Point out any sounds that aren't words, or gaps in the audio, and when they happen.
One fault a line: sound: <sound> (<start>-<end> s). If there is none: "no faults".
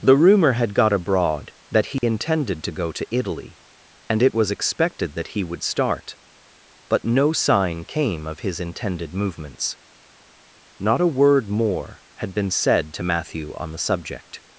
sound: dropout (2.0-2.0 s)